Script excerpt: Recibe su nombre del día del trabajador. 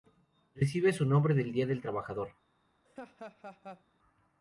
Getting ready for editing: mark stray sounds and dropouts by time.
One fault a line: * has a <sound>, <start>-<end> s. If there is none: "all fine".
* has a laugh, 2.8-3.8 s